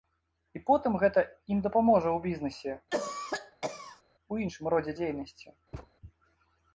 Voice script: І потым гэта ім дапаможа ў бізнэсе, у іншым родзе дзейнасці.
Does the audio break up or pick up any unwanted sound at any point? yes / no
yes